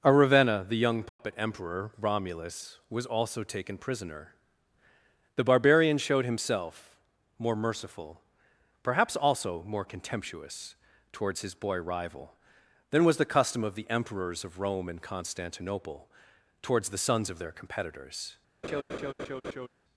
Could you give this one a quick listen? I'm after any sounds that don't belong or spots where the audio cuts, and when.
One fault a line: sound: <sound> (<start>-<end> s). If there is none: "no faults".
sound: dropout (1.1-1.2 s)
sound: laugh (18.6-19.7 s)